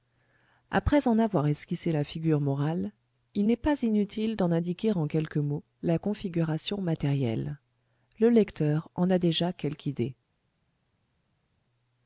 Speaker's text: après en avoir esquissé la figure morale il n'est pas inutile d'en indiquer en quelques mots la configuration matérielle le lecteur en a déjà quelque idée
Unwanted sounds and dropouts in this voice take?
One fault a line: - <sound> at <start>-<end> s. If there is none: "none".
none